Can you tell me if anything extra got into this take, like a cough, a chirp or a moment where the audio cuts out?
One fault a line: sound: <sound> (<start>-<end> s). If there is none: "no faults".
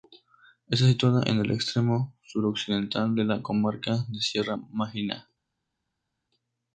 no faults